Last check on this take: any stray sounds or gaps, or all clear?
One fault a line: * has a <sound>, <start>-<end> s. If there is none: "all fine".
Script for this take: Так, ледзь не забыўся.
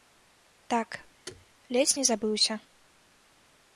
* has a thud, 1.3-1.5 s